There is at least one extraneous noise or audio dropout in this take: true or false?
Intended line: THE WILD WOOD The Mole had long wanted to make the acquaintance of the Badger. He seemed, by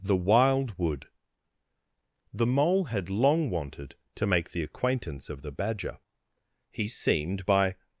false